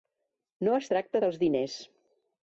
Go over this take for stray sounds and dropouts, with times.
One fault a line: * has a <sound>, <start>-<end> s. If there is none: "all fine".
all fine